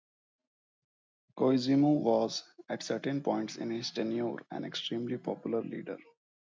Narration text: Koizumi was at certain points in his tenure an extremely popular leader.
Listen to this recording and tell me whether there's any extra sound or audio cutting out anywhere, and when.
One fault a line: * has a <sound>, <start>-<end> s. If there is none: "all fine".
all fine